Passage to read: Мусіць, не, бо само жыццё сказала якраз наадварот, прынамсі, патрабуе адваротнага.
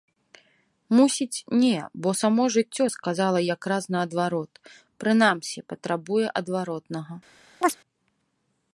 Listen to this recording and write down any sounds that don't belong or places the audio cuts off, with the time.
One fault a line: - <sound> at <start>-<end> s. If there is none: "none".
- chirp at 7.6-7.8 s